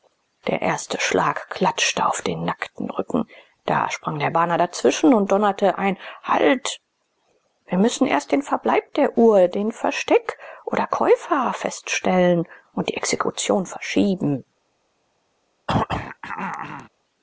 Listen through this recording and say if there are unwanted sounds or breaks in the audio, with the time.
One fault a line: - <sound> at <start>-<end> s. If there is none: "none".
- throat clearing at 15.7-16.9 s